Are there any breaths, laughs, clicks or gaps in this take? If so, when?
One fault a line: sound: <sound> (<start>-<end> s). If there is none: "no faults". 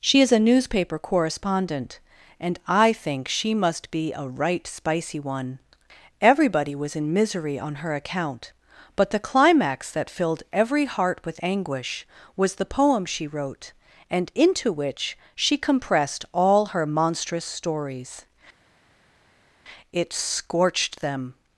no faults